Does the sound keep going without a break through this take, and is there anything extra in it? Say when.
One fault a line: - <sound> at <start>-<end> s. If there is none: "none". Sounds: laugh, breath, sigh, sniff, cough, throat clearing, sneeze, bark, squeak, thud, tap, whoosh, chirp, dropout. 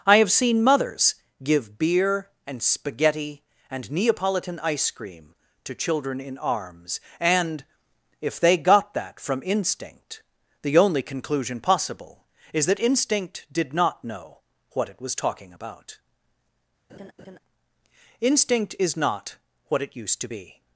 - laugh at 16.9-17.4 s